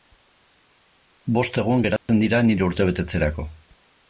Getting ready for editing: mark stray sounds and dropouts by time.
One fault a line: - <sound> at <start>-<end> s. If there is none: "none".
- dropout at 2.0-2.1 s